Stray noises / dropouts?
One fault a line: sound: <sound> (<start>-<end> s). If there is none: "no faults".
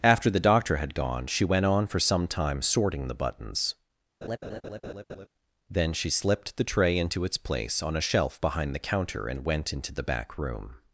sound: laugh (4.2-5.3 s)